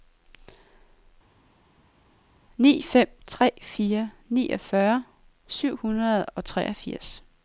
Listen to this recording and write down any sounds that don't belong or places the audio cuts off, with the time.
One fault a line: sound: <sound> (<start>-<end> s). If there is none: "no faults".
no faults